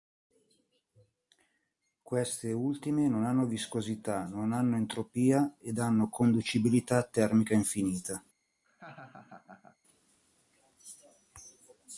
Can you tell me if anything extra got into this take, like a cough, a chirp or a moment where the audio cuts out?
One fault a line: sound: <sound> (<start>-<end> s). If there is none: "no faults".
sound: laugh (8.6-9.8 s)